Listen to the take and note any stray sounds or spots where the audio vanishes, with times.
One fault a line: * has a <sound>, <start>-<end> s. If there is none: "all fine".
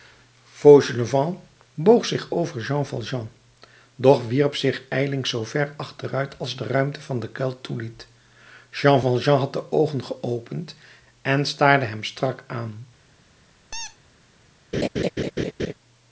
* has a squeak, 13.7-14.0 s
* has a laugh, 14.7-15.7 s